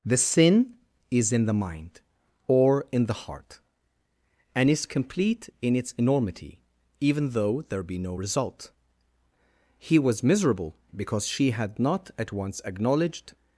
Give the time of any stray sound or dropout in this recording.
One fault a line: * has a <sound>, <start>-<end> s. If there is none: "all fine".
all fine